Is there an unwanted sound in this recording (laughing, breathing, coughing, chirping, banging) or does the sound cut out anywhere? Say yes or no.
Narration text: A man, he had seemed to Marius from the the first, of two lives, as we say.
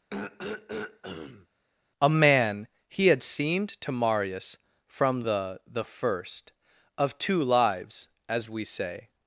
yes